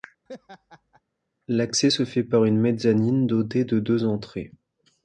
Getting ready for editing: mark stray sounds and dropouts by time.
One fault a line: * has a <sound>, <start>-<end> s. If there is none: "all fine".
* has a laugh, 0.3-1.0 s